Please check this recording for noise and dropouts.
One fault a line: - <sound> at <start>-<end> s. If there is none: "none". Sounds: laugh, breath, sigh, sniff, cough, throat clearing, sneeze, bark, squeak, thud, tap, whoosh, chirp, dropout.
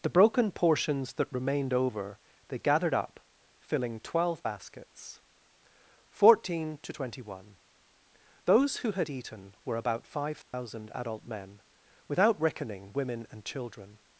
- dropout at 10.4-10.5 s